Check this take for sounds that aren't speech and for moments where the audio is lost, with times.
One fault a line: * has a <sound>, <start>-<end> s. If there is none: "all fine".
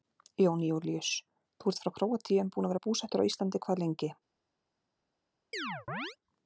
* has a chirp, 5.5-6.2 s